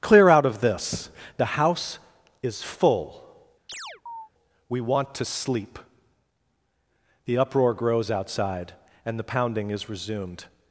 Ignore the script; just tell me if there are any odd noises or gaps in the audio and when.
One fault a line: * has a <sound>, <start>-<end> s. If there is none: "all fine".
* has a chirp, 3.7-4.3 s